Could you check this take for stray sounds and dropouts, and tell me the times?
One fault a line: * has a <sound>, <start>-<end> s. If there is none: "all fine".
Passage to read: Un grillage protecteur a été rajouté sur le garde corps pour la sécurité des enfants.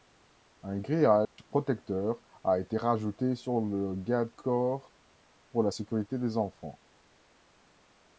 * has a dropout, 1.2-1.4 s